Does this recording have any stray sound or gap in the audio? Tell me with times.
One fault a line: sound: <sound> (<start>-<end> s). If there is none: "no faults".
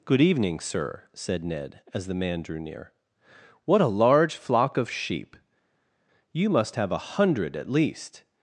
no faults